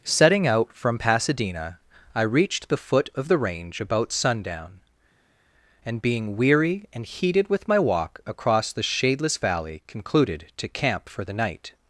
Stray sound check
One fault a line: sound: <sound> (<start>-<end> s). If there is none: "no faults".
no faults